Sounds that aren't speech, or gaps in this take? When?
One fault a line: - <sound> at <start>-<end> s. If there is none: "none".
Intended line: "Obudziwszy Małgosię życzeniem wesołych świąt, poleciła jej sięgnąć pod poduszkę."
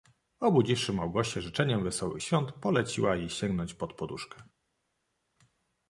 none